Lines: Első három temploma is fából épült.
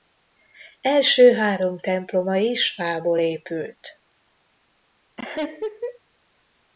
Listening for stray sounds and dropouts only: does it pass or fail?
fail